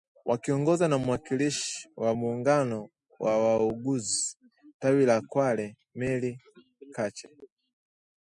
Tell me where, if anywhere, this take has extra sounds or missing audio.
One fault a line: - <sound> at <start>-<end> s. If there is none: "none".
none